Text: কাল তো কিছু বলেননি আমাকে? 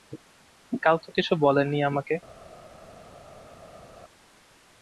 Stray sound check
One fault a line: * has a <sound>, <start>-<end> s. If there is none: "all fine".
all fine